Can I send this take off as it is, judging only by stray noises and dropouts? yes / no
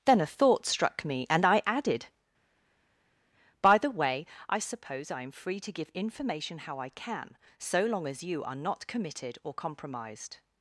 yes